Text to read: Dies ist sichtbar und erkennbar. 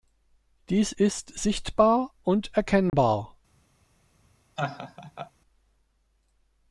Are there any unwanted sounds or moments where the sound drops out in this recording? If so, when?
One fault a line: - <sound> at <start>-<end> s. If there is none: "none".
- dropout at 2.9-2.9 s
- laugh at 4.6-5.3 s